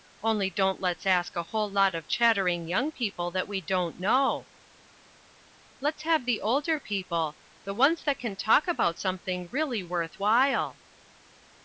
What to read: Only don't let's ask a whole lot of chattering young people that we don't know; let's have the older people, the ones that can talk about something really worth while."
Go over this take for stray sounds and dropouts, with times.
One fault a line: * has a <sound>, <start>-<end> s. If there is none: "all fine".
all fine